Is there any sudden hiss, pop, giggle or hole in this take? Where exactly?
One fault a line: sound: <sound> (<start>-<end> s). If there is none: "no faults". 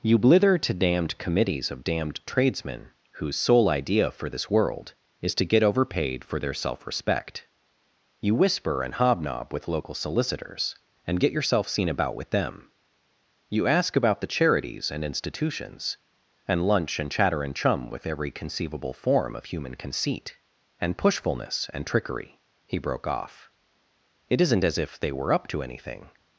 no faults